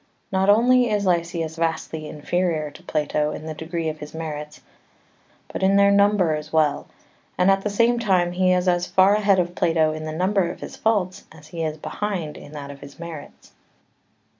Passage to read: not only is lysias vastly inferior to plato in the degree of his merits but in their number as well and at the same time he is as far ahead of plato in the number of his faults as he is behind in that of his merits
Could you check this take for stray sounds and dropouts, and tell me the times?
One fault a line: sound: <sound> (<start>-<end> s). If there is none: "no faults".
no faults